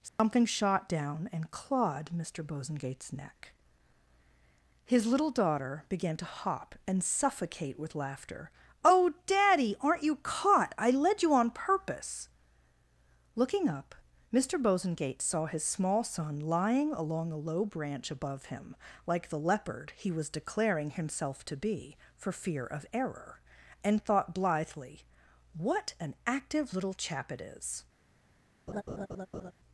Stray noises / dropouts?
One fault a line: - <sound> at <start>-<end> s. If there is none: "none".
- dropout at 0.1-0.2 s
- laugh at 28.7-29.5 s